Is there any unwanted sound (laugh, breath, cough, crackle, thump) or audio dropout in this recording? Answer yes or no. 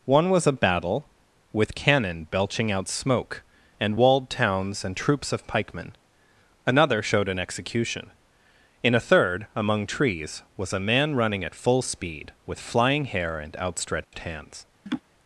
yes